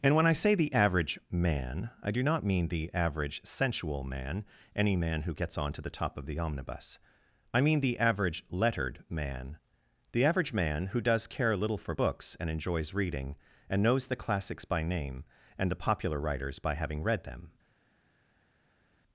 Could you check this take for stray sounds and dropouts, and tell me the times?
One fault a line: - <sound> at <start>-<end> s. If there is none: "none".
none